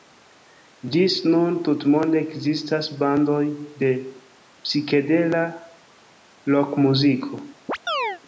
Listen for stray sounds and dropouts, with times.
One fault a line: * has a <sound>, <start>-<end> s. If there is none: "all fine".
* has a chirp, 7.7-8.2 s